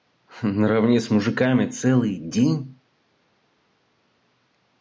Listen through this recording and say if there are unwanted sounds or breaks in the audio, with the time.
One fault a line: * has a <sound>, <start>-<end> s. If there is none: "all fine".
all fine